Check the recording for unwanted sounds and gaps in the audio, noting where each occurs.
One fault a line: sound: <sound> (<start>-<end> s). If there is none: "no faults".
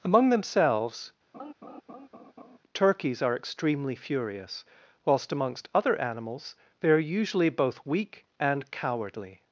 sound: laugh (1.3-2.6 s)